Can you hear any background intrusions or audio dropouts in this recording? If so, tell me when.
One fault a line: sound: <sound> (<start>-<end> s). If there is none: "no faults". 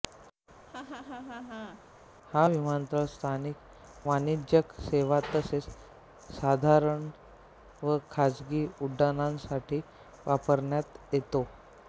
sound: laugh (0.7-1.8 s)